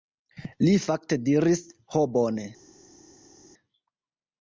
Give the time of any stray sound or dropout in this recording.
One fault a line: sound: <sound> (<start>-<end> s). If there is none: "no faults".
no faults